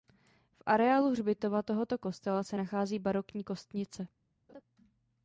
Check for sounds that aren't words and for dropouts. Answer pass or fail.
fail